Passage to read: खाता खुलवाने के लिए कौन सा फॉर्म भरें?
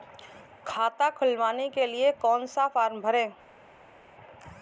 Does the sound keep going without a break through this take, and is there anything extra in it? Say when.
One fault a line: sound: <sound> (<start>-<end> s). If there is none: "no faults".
no faults